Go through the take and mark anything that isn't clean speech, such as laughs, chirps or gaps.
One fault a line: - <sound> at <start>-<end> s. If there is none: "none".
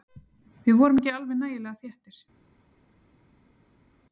none